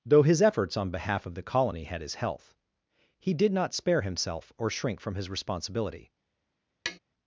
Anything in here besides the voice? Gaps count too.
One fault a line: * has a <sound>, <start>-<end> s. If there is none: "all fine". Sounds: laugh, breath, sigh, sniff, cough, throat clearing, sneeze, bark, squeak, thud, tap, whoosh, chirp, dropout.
* has a tap, 6.9-7.0 s